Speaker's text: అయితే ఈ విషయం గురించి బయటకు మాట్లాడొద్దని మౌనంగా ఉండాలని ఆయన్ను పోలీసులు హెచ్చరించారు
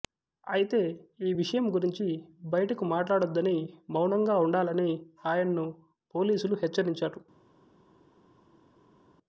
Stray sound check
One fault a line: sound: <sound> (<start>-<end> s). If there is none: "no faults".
no faults